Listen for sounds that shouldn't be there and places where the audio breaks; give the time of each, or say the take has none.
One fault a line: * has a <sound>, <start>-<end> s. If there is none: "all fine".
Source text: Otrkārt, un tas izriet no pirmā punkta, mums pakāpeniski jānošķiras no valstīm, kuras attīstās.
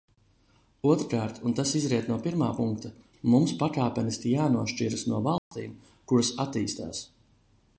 * has a dropout, 5.4-5.5 s